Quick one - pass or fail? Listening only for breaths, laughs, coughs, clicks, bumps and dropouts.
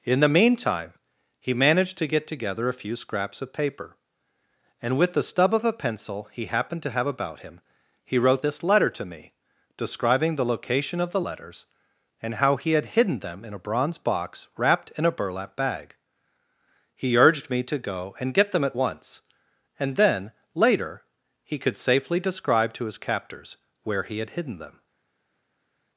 pass